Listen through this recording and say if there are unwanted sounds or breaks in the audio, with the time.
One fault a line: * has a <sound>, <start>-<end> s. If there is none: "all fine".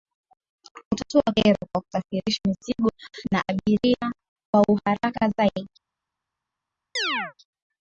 * has a chirp, 7.0-7.3 s